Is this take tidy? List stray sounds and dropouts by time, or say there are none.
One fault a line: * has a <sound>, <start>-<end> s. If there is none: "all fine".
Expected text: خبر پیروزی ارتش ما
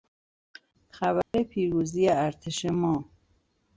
* has a dropout, 1.2-1.3 s